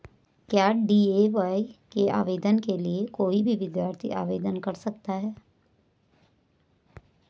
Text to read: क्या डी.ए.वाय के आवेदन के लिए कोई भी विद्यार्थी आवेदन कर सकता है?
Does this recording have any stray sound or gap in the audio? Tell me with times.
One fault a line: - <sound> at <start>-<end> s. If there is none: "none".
none